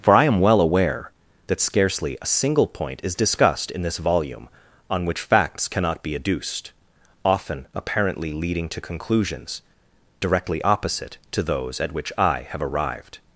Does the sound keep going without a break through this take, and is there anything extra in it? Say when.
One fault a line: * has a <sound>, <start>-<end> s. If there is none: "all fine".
all fine